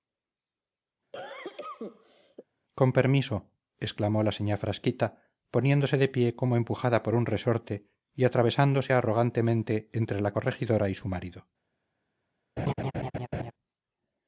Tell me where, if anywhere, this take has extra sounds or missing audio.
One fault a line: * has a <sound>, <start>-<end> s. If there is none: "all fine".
* has a cough, 1.1-2.5 s
* has a laugh, 12.6-13.5 s